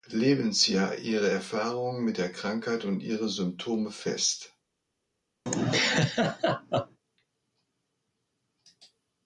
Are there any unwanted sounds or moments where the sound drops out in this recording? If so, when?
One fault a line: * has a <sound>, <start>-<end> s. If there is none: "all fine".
* has a laugh, 5.5-7.0 s